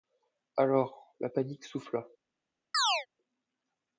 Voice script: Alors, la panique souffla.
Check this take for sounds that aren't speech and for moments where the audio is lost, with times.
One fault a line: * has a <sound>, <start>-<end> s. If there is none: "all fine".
* has a chirp, 2.7-3.1 s